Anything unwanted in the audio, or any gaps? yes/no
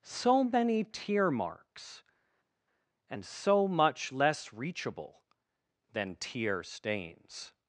no